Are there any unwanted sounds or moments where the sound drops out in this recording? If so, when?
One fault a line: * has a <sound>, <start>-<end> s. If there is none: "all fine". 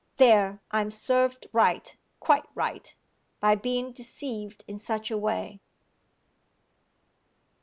all fine